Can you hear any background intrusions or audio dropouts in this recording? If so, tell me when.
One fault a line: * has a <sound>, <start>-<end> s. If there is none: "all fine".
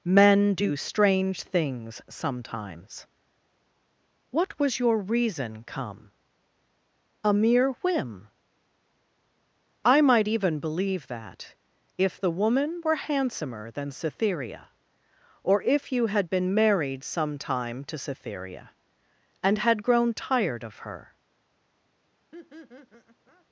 * has a laugh, 22.3-23.5 s